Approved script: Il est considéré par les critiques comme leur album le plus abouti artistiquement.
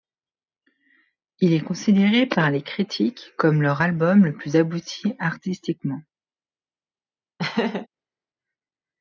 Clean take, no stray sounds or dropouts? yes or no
no